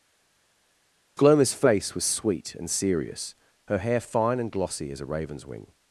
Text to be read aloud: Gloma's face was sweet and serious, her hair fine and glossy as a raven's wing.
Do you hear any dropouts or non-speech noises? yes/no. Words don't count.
no